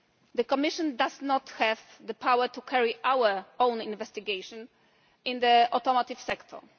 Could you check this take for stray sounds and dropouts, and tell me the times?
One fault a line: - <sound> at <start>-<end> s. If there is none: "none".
none